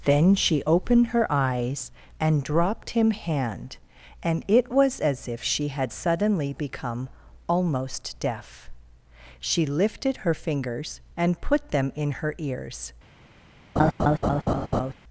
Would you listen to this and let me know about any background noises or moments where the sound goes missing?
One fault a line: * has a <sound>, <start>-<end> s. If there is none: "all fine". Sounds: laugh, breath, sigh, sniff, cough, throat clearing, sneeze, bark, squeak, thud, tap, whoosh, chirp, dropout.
* has a laugh, 13.8-14.9 s